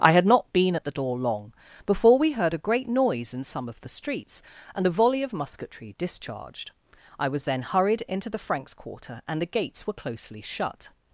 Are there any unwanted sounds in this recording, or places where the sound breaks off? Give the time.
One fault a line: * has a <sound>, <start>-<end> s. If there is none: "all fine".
all fine